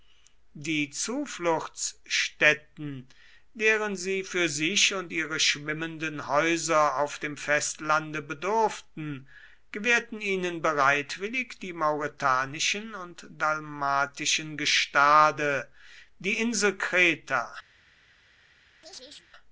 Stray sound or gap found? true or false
true